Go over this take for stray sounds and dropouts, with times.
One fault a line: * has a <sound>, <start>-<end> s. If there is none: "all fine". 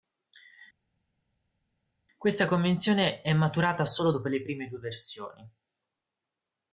all fine